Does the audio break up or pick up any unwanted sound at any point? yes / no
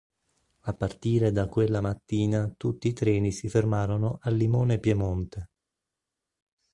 no